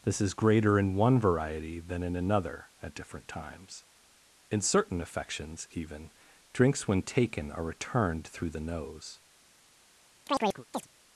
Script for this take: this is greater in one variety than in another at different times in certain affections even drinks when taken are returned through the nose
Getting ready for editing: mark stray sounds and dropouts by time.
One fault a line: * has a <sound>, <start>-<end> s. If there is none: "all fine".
* has a chirp, 10.3-10.9 s